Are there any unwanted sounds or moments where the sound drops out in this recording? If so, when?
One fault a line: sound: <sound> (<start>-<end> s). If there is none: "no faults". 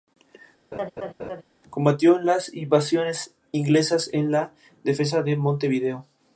sound: laugh (0.7-1.4 s)